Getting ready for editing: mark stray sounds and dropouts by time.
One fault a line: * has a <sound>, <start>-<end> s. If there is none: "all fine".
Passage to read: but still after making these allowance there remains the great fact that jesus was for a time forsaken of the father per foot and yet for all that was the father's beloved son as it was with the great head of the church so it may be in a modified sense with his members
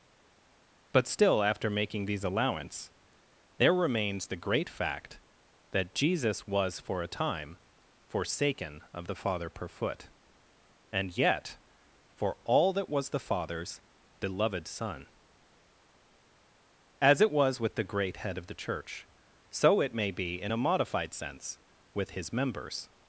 all fine